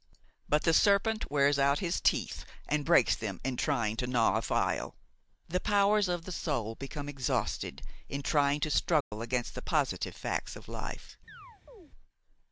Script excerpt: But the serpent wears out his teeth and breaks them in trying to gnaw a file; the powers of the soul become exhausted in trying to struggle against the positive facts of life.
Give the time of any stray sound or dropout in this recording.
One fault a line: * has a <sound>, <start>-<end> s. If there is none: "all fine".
* has a dropout, 9.0-9.1 s
* has a chirp, 11.3-11.9 s